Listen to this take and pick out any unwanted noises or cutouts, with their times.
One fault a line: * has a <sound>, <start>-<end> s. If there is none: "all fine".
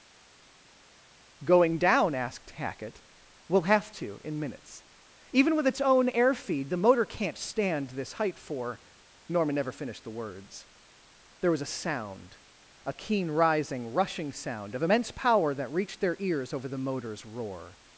all fine